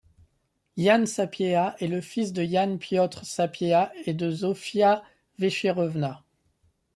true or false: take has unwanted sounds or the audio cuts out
false